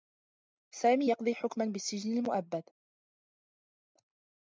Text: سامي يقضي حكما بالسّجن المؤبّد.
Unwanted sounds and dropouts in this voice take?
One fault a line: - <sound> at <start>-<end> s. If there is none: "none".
none